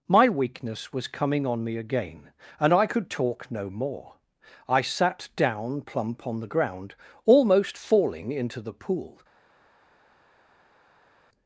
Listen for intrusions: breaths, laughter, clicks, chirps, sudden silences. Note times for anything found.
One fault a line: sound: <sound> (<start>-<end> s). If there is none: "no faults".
no faults